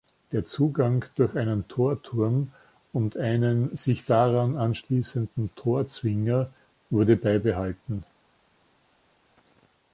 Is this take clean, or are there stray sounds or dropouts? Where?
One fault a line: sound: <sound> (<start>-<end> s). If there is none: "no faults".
no faults